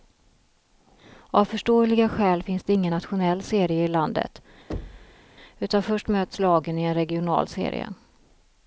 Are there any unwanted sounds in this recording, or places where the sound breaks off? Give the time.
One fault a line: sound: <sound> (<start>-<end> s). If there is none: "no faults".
sound: thud (4.7-5.2 s)